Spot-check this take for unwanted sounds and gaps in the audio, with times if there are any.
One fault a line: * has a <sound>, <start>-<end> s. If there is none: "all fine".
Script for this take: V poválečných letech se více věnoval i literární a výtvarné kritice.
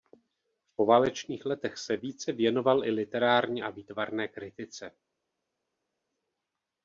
all fine